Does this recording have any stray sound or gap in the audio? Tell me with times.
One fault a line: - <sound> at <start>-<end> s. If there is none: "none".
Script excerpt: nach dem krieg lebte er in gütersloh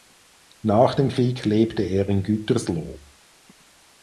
none